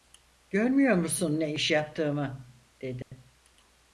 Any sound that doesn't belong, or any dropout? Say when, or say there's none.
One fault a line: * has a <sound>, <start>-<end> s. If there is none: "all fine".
* has a dropout, 3.0-3.1 s